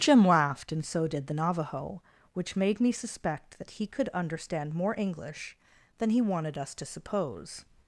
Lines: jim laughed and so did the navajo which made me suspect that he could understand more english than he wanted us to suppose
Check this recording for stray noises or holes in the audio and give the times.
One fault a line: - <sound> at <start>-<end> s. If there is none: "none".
none